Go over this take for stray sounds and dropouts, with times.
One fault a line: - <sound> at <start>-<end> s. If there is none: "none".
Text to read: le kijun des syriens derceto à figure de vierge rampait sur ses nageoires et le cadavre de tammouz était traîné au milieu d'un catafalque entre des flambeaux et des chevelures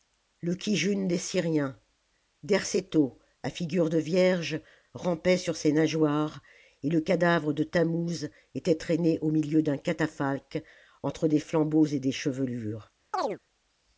- chirp at 13.1-13.4 s